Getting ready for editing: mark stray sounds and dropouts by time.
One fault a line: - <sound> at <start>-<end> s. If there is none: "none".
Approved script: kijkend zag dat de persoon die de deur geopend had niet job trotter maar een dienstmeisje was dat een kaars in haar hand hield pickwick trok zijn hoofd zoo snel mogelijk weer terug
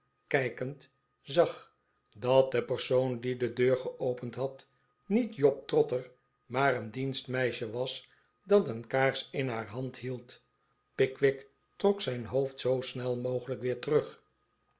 none